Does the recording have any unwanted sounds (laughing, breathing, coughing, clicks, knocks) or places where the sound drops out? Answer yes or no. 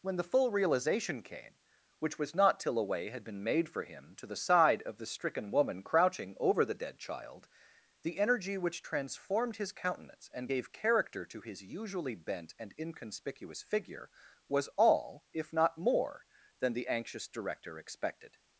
no